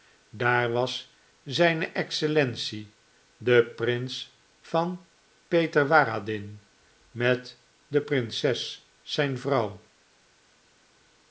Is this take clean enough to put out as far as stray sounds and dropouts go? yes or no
yes